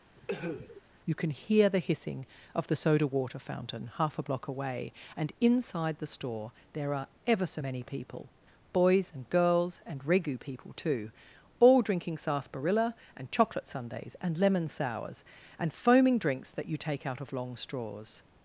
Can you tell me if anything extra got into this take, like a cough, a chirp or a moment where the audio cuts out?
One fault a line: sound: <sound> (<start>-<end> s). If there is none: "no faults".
sound: cough (0.2-0.8 s)